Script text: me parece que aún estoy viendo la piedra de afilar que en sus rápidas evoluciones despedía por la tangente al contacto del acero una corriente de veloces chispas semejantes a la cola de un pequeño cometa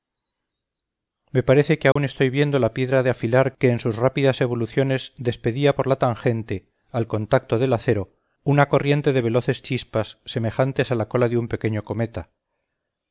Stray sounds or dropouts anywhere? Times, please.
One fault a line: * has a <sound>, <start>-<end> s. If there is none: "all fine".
* has a dropout, 1.9-2.0 s